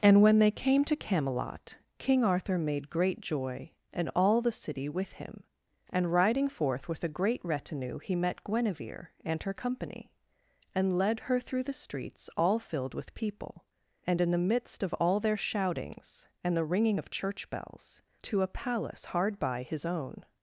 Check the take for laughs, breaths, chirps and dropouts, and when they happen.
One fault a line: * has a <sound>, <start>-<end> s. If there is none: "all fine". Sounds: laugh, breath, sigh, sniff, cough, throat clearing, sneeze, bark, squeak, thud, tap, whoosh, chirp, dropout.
all fine